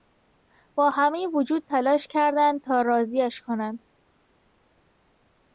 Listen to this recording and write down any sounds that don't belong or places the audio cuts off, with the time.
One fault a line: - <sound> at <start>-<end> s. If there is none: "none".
none